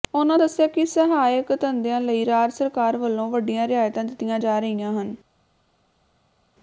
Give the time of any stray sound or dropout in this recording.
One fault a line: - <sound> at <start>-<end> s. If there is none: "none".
none